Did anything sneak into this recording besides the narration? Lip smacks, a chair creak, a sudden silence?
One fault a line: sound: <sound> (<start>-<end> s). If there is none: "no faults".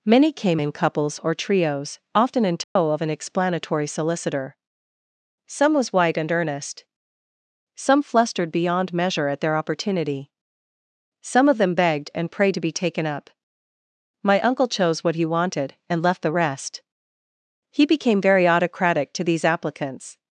sound: dropout (2.6-2.8 s)